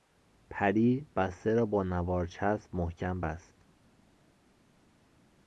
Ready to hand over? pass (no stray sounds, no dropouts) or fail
pass